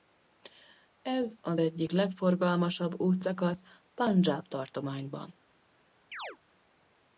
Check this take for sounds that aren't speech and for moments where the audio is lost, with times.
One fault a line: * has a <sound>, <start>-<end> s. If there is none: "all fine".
* has a chirp, 6.1-6.4 s